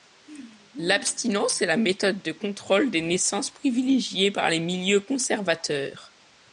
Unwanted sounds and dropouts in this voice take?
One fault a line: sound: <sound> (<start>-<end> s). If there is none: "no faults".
no faults